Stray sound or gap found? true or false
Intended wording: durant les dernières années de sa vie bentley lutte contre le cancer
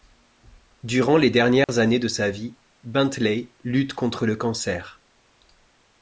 true